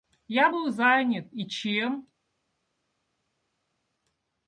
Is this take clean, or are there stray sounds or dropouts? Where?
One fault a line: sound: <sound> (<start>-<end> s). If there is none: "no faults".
no faults